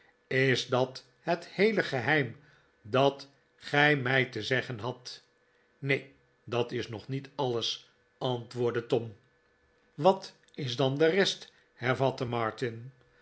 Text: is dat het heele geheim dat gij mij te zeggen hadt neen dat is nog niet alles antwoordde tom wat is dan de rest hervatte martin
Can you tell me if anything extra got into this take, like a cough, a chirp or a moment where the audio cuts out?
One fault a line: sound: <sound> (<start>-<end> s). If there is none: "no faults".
no faults